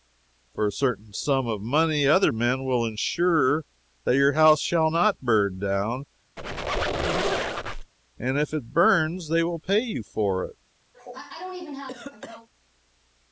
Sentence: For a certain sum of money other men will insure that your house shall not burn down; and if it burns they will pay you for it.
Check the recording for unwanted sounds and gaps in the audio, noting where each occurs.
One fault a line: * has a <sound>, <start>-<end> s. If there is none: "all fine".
* has a squeak, 6.4-7.9 s
* has a cough, 10.9-12.5 s